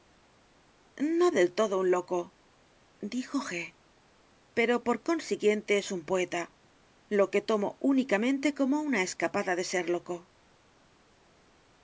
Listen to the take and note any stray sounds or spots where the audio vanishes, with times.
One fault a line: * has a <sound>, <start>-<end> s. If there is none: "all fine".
all fine